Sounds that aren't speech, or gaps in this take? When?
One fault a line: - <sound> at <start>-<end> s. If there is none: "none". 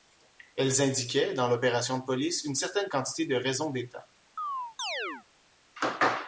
- chirp at 4.4-5.3 s